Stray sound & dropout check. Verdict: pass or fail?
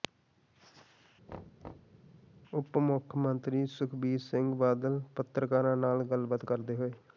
fail